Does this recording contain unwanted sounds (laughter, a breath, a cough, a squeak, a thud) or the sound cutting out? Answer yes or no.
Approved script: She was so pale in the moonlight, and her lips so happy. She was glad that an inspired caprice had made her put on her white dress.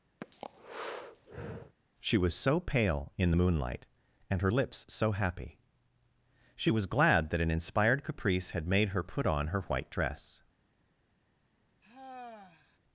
yes